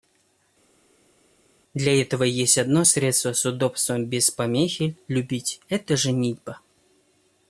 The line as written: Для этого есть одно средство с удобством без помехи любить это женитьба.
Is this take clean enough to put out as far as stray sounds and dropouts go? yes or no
yes